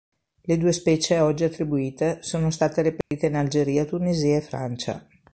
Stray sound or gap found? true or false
true